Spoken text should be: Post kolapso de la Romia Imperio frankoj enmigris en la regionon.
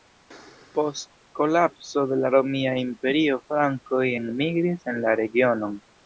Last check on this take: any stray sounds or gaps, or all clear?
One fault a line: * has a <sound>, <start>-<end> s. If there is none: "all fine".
all fine